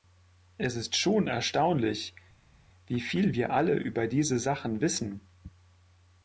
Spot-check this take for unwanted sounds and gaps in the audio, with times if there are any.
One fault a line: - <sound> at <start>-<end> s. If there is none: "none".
none